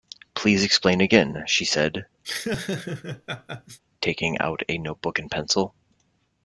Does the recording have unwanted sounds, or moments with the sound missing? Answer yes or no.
yes